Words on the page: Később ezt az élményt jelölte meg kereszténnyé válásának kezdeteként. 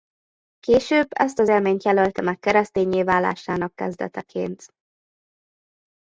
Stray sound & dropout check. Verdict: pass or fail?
pass